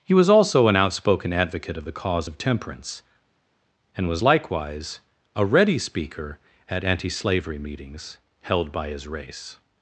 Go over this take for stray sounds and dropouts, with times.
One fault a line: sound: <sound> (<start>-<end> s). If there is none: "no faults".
no faults